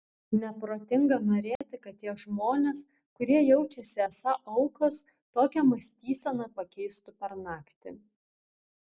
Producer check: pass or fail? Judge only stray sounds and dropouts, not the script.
fail